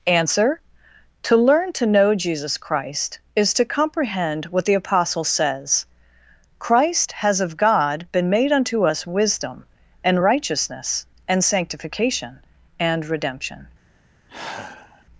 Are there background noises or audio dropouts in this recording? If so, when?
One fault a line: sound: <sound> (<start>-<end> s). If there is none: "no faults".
sound: sigh (14.3-15.1 s)